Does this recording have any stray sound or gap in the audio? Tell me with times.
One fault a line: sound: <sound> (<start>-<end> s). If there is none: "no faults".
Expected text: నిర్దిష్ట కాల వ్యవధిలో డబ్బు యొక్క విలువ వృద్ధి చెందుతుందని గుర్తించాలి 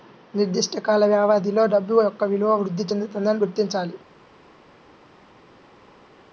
no faults